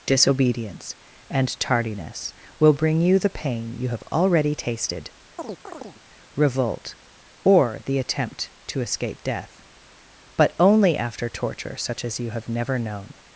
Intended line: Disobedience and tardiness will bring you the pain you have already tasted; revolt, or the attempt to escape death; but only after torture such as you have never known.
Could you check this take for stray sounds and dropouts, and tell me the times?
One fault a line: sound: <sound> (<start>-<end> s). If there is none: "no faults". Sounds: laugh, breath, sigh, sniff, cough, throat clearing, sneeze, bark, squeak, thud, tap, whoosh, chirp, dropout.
sound: chirp (5.4-6.0 s)